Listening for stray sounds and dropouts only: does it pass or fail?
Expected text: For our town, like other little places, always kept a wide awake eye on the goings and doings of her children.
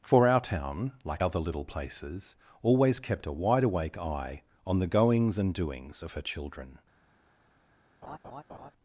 fail